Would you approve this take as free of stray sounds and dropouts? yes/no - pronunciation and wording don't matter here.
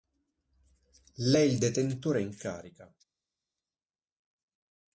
yes